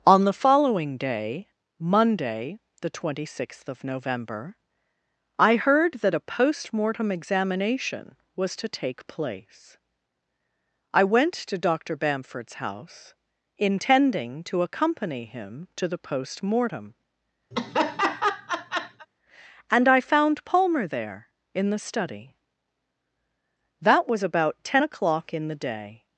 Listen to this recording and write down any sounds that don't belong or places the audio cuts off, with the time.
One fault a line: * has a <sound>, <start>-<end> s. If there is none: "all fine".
* has a laugh, 17.5-19.1 s